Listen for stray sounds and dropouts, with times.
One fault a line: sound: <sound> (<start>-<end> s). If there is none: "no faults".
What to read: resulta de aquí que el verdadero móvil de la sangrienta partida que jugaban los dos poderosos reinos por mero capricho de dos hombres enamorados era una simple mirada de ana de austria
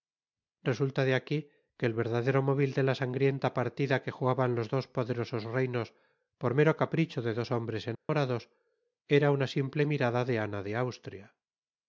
sound: dropout (7.9-8.1 s)